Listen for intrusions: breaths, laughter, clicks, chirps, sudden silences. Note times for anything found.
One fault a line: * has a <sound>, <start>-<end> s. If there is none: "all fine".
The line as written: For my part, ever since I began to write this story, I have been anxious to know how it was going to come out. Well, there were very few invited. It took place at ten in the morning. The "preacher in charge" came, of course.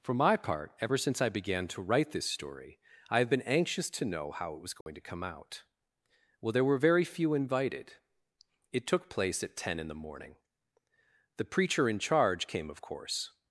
* has a dropout, 4.8-4.9 s